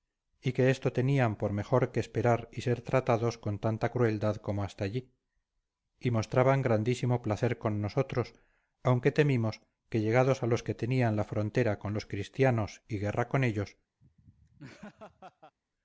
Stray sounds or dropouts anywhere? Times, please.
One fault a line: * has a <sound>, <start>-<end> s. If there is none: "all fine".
* has a laugh, 14.0-15.6 s